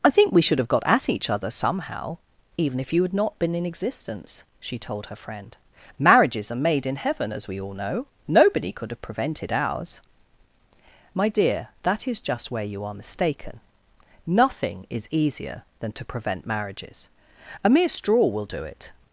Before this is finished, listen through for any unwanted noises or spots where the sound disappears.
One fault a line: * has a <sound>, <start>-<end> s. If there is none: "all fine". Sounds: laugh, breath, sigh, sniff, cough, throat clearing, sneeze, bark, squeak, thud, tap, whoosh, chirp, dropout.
all fine